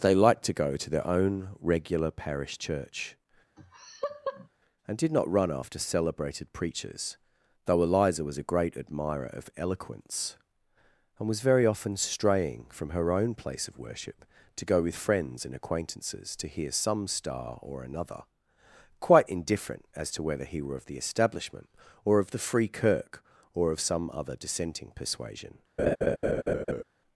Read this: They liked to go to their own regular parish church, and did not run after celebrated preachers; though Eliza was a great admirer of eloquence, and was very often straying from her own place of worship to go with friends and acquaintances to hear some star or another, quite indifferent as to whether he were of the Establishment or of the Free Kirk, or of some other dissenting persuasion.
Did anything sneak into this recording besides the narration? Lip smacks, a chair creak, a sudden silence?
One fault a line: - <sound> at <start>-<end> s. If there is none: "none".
- laugh at 3.6-4.5 s
- laugh at 25.8-26.8 s